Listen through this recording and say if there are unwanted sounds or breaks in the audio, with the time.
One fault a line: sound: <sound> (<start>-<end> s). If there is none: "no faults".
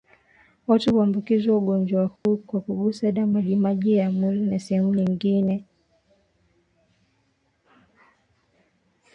sound: dropout (2.2-2.3 s)